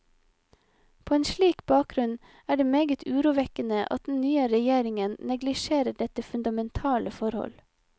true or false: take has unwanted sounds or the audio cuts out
false